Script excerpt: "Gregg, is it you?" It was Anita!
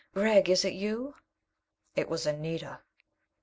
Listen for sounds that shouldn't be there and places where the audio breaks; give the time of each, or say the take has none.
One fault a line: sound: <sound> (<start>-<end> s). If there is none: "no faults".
no faults